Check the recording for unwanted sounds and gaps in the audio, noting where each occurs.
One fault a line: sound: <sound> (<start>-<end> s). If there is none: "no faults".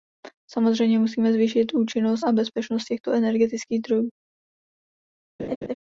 sound: laugh (5.4-5.7 s)